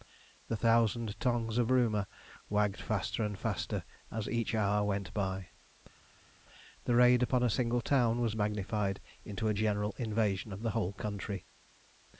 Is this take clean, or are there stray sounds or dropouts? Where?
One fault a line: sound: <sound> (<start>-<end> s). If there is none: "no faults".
no faults